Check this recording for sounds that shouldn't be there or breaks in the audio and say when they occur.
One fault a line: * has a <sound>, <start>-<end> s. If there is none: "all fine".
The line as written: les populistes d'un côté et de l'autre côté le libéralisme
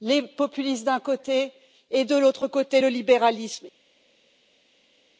all fine